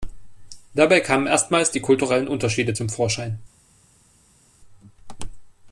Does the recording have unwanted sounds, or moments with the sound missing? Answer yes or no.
no